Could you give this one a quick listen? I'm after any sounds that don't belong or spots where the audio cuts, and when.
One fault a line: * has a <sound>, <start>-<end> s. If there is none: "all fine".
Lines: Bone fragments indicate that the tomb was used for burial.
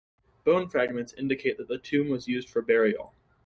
all fine